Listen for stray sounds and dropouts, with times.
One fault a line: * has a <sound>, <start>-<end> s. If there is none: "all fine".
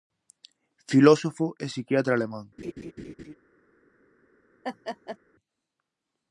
* has a laugh, 2.6-3.3 s
* has a laugh, 4.6-5.2 s